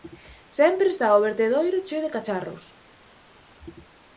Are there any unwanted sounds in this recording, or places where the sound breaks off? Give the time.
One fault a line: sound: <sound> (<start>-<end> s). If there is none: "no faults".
no faults